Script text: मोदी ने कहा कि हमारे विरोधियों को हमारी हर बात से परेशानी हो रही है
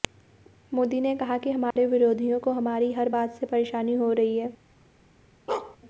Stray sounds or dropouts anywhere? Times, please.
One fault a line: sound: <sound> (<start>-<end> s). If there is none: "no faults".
sound: dropout (1.7-1.8 s)
sound: bark (5.5-5.8 s)